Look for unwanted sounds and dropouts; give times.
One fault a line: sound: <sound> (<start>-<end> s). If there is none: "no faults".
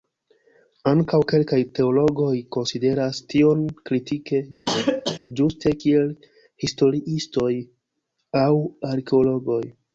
sound: cough (4.7-5.2 s)